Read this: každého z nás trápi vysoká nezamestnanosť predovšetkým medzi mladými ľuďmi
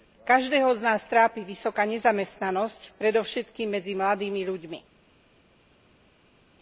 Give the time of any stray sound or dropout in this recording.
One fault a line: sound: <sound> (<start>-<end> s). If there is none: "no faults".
no faults